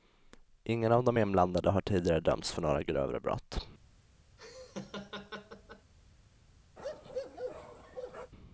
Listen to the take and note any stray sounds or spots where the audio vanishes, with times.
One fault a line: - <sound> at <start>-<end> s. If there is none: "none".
- laugh at 4.4-5.9 s
- bark at 6.8-8.3 s